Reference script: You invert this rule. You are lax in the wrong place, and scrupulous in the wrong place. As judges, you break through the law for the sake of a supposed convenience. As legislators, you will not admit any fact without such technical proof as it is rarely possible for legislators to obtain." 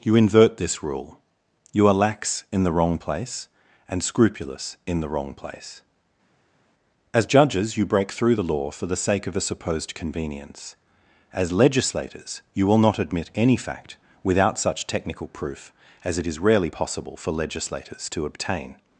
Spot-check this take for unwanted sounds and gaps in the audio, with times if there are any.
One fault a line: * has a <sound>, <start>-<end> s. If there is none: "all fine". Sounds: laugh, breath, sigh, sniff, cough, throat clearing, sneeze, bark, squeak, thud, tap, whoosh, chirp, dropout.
all fine